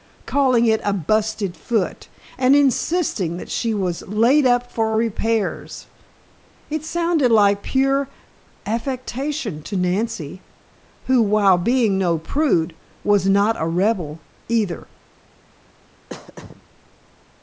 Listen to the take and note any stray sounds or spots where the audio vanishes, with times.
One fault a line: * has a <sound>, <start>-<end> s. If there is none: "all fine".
* has a throat clearing, 16.1-16.6 s